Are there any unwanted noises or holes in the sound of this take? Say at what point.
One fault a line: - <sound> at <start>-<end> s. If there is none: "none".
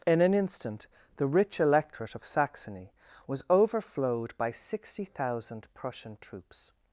none